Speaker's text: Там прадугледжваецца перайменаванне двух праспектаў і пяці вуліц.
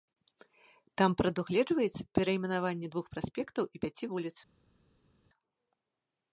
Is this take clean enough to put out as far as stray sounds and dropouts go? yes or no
yes